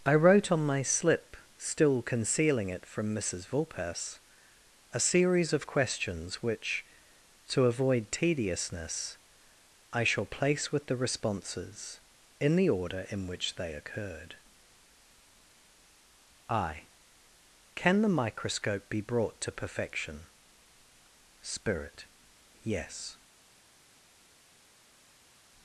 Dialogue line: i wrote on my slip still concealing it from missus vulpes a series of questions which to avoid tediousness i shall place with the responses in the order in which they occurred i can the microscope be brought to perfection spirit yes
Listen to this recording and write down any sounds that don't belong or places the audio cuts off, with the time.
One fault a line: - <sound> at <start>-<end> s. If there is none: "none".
none